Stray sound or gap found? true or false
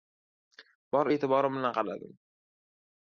false